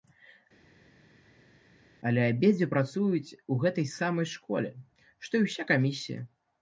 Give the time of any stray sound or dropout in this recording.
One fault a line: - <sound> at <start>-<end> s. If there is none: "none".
none